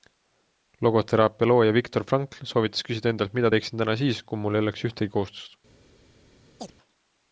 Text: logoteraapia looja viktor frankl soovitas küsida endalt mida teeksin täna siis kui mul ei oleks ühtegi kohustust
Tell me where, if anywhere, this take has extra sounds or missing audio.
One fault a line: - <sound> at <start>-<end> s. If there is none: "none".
- chirp at 6.6-6.7 s